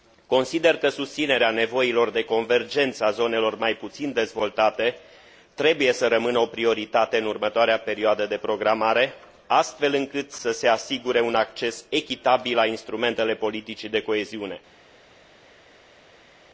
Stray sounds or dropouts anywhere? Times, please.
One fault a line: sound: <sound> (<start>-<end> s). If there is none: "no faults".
no faults